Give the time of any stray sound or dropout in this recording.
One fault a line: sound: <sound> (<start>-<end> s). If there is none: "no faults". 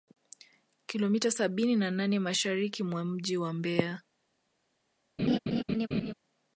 sound: laugh (5.2-6.1 s)